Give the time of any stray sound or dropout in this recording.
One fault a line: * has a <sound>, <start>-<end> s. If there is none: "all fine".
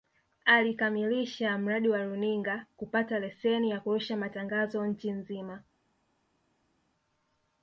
all fine